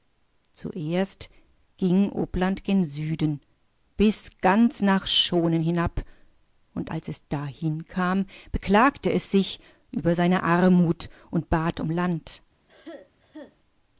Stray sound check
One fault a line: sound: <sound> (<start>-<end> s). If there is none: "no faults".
sound: cough (12.7-13.6 s)